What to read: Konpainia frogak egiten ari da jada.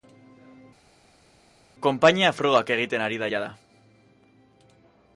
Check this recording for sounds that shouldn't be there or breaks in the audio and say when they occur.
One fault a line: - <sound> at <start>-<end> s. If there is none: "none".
none